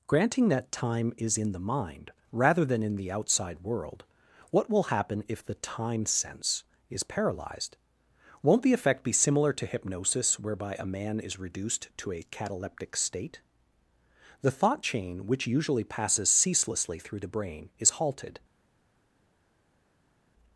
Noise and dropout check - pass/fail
pass